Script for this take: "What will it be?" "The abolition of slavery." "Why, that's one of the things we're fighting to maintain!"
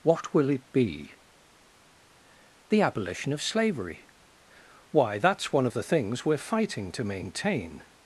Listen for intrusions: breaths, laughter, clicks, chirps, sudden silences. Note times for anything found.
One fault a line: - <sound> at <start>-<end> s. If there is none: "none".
none